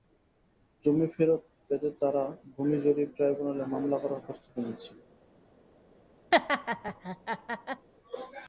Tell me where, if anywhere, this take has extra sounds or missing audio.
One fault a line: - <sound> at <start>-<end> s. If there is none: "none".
- laugh at 6.3-7.9 s